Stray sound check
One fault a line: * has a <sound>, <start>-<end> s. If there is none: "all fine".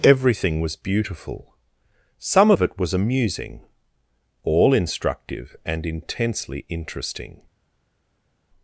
all fine